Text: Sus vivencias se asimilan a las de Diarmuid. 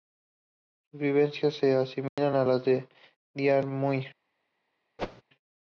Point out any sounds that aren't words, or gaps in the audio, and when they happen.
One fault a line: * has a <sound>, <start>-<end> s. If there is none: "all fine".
* has a dropout, 2.1-2.2 s
* has a whoosh, 5.0-5.2 s